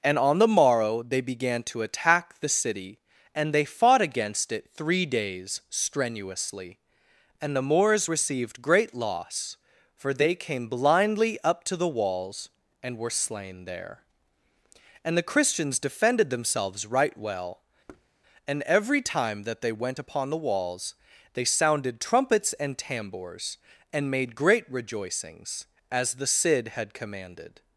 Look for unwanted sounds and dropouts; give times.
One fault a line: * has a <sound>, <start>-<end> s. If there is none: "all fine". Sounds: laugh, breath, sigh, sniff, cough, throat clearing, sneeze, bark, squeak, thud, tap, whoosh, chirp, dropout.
* has a thud, 17.9-18.1 s